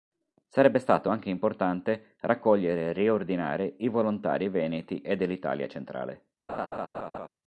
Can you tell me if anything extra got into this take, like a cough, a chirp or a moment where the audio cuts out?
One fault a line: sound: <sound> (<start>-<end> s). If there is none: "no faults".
sound: laugh (6.5-7.3 s)